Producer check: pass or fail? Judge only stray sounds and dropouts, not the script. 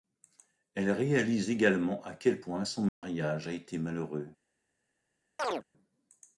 fail